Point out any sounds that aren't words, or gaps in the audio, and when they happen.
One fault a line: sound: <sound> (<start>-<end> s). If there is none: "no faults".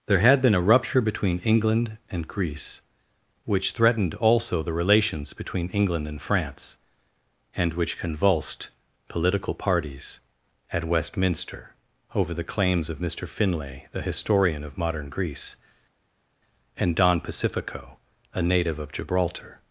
no faults